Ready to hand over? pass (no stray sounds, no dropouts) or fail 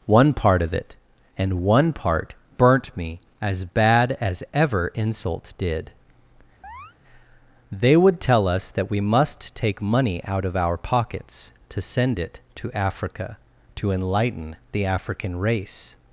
fail